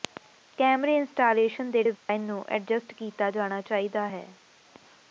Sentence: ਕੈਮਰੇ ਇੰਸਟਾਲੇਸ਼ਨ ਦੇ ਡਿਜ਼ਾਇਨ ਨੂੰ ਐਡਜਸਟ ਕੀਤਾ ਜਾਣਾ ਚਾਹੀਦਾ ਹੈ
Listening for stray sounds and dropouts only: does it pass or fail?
fail